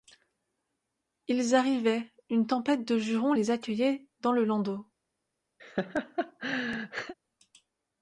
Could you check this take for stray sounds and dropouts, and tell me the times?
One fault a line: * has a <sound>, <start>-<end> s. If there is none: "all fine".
* has a laugh, 5.6-7.1 s